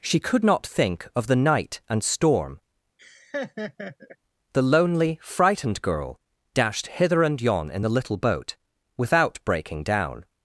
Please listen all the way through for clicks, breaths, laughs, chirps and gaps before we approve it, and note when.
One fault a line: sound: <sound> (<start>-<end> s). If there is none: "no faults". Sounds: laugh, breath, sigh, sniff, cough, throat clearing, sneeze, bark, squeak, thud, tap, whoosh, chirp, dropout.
sound: laugh (3.0-4.2 s)